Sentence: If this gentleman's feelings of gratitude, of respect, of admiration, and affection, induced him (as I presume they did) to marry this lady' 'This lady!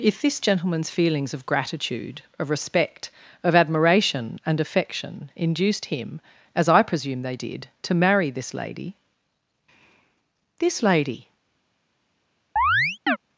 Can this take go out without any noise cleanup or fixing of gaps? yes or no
no